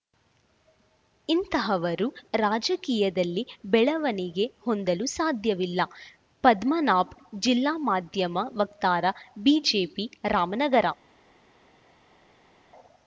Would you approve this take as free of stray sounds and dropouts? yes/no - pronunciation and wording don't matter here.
yes